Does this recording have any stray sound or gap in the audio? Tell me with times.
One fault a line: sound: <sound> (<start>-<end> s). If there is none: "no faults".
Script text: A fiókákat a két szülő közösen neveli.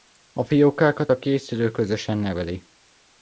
no faults